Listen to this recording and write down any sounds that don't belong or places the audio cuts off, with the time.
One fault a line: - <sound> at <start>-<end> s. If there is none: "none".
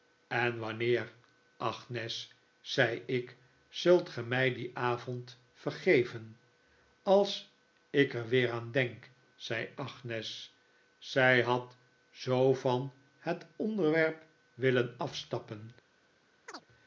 - chirp at 16.5-16.6 s